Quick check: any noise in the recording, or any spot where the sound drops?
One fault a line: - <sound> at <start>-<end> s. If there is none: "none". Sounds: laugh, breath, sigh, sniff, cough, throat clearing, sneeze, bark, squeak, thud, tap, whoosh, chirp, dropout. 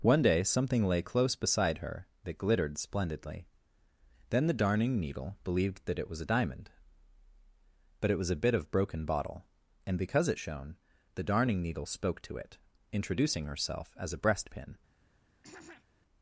- throat clearing at 15.4-15.9 s